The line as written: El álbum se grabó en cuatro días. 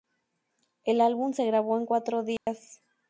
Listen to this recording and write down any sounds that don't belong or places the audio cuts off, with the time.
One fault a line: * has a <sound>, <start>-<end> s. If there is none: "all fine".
* has a dropout, 2.4-2.5 s